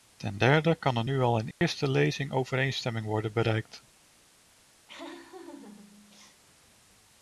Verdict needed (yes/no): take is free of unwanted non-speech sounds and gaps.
no